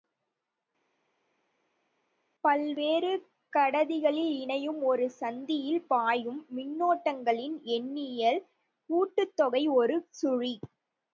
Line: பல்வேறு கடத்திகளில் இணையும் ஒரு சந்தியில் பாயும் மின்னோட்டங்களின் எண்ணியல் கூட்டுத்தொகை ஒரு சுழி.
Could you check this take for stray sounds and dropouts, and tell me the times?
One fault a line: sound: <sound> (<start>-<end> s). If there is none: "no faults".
no faults